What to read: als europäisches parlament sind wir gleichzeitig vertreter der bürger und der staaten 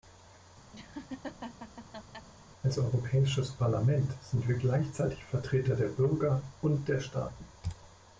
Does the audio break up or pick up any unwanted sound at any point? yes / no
yes